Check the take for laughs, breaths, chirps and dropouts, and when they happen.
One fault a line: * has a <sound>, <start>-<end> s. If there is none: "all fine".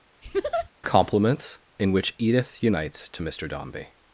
* has a laugh, 0.2-0.7 s